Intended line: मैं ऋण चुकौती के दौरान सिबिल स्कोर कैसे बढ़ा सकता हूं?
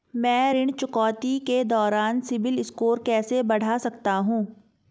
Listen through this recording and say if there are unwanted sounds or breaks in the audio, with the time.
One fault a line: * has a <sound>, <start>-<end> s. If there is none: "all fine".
all fine